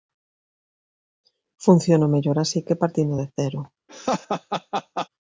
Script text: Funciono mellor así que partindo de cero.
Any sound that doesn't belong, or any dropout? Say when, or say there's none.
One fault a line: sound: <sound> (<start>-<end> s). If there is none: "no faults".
sound: laugh (3.9-5.1 s)